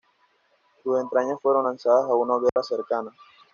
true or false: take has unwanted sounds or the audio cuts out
true